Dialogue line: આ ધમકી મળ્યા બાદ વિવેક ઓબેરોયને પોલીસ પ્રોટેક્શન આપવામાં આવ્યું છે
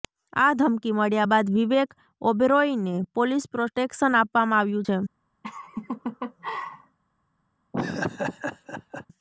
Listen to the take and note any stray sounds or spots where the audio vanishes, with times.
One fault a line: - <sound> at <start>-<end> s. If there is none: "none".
- laugh at 5.4-7.0 s
- laugh at 7.7-9.1 s